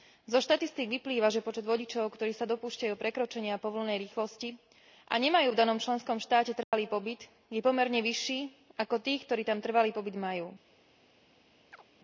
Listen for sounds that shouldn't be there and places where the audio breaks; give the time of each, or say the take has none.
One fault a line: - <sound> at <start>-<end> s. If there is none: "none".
- dropout at 6.6-6.7 s
- chirp at 11.7-11.8 s